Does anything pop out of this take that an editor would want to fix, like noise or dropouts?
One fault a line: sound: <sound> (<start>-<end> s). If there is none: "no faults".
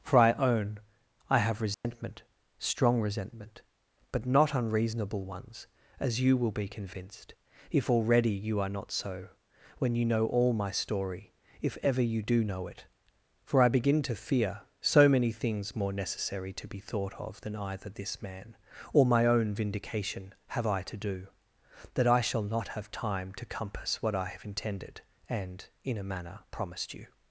sound: dropout (1.7-1.8 s)